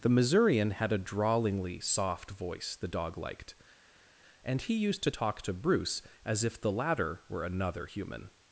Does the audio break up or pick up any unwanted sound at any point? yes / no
no